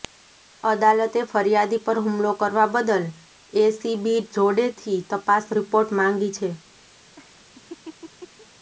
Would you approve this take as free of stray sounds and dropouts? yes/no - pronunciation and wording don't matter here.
no